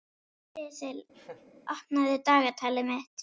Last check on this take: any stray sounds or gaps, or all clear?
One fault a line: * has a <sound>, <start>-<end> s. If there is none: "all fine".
* has a laugh, 1.1-1.5 s